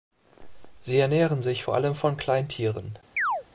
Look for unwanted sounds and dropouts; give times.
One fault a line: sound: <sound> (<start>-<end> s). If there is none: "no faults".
sound: chirp (3.2-3.4 s)